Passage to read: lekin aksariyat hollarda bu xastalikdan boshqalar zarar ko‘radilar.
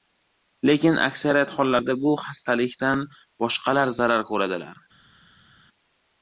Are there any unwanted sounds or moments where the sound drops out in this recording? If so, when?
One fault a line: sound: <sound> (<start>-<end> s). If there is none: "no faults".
no faults